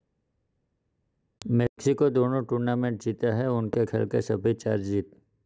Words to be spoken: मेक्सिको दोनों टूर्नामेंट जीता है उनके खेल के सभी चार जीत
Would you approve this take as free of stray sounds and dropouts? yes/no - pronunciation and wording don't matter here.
yes